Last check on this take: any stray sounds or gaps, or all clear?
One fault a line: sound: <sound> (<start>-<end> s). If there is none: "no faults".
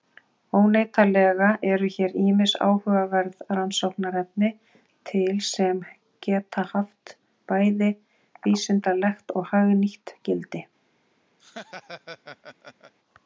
sound: laugh (11.4-12.9 s)